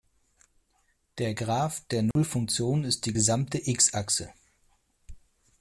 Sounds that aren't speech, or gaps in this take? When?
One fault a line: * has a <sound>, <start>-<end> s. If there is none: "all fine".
* has a dropout, 2.1-2.2 s